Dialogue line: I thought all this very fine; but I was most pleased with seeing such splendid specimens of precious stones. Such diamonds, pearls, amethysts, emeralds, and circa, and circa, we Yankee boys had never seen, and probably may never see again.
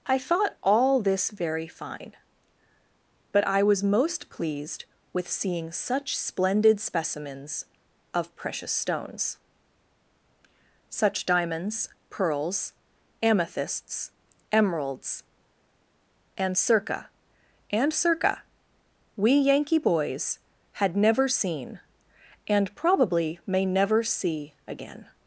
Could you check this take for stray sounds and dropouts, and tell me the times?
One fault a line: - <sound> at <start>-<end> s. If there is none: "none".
none